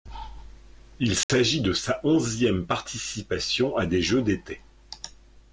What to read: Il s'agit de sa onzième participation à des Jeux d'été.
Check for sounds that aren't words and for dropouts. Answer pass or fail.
fail